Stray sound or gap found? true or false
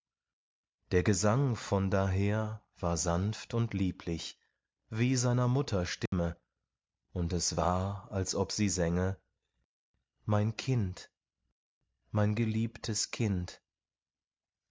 true